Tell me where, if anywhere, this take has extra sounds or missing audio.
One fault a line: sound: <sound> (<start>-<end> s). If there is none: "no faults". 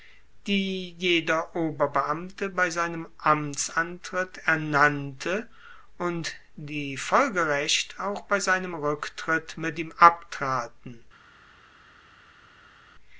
no faults